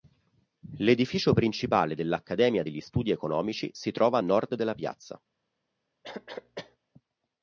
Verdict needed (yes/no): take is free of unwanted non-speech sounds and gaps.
no